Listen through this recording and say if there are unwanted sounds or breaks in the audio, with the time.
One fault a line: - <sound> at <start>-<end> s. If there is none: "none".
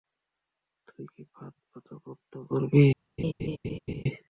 - laugh at 3.2-4.0 s